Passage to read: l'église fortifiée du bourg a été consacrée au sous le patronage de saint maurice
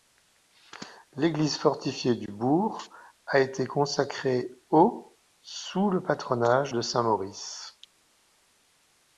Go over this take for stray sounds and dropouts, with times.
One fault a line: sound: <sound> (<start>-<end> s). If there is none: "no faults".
no faults